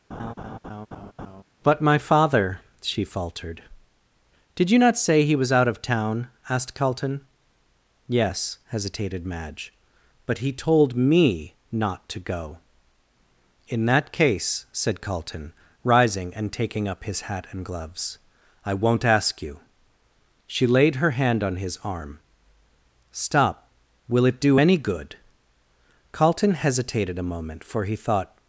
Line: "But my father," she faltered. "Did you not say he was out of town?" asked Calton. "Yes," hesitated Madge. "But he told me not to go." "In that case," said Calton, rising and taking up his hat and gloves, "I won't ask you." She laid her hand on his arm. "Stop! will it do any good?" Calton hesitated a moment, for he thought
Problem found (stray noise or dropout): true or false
true